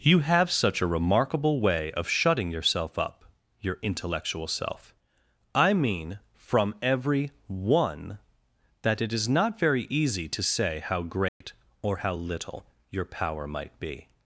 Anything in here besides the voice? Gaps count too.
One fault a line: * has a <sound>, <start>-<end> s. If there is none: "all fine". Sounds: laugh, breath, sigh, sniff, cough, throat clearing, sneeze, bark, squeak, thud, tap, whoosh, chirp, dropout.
* has a dropout, 11.3-11.4 s